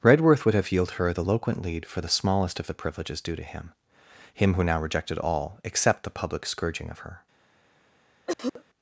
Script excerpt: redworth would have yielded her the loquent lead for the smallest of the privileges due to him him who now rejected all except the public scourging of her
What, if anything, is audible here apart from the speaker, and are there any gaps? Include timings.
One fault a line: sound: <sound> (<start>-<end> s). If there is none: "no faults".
sound: cough (8.3-8.6 s)